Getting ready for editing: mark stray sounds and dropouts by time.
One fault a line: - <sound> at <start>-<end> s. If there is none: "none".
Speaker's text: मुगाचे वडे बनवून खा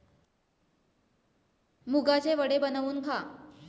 none